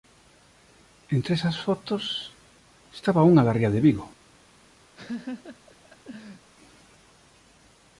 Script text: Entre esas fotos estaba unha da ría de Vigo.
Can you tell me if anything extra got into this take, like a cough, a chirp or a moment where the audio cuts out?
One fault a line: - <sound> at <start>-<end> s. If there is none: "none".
- laugh at 5.0-6.5 s